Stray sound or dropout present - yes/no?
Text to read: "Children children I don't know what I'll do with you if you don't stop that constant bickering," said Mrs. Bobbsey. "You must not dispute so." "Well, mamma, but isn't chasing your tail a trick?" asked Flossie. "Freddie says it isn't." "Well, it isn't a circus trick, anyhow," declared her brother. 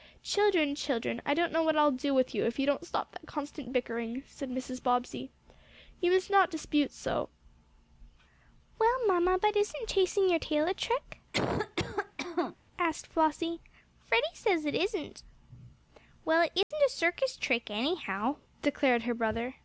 yes